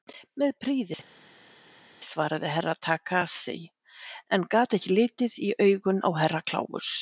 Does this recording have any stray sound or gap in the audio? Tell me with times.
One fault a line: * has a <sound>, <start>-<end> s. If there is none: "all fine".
all fine